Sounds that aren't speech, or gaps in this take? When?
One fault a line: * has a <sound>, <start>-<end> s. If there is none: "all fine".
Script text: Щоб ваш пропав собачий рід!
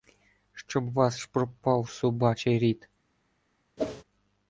* has a whoosh, 3.8-4.0 s